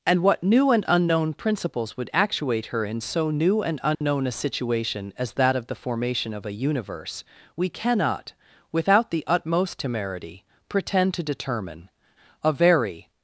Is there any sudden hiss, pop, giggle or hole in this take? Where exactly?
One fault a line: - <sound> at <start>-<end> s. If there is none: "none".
- dropout at 3.9-4.0 s